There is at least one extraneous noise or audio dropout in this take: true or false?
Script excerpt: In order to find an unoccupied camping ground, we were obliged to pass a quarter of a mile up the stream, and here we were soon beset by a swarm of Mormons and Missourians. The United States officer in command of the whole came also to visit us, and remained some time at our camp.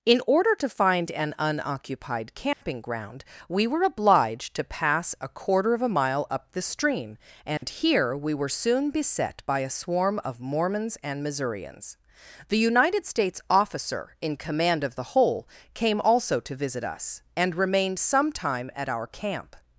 true